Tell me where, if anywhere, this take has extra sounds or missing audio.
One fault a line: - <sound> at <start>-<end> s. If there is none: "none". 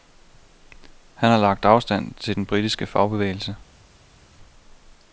none